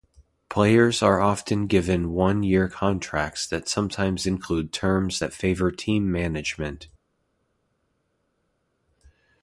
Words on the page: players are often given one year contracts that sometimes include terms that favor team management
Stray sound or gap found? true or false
false